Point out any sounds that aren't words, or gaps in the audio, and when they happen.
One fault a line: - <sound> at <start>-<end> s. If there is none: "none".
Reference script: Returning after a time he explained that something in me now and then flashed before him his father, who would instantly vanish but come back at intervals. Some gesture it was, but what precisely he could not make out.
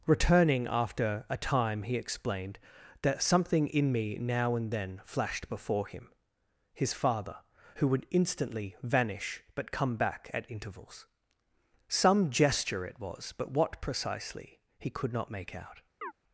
- chirp at 16.0-16.1 s